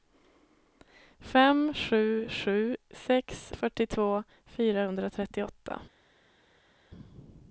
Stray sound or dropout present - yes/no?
no